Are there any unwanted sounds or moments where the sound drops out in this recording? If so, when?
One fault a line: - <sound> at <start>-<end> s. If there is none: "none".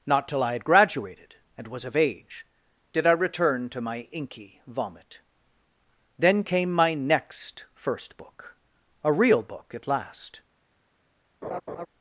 - laugh at 11.4-11.9 s